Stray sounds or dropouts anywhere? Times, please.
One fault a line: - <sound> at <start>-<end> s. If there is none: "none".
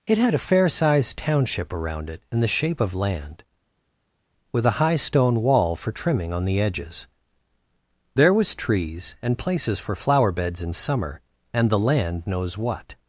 none